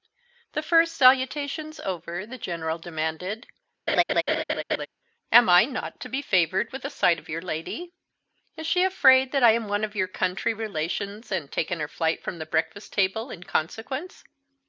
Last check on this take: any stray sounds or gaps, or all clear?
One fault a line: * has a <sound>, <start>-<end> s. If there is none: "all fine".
* has a laugh, 3.9-4.9 s